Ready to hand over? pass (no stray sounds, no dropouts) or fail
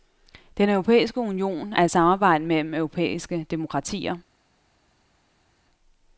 pass